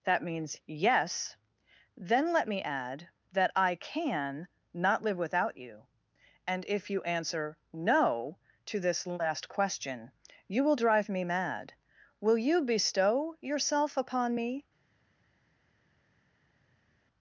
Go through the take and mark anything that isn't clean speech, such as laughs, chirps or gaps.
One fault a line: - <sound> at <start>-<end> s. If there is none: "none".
none